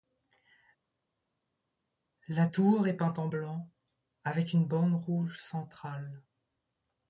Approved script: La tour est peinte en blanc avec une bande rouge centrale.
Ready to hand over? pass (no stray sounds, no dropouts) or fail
pass